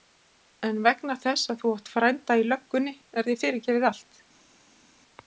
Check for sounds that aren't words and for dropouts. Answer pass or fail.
pass